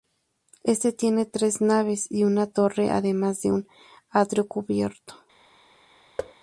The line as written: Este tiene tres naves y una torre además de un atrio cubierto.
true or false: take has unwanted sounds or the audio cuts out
true